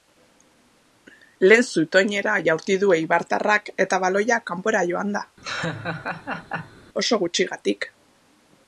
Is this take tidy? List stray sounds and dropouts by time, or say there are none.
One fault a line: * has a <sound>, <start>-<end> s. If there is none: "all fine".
* has a laugh, 5.4-6.8 s